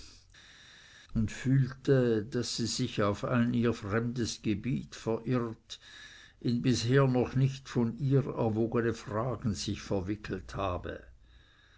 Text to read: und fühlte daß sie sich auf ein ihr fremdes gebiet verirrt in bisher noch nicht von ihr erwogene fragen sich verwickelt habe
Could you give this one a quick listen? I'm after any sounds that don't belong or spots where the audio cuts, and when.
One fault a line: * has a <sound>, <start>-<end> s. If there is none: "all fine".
all fine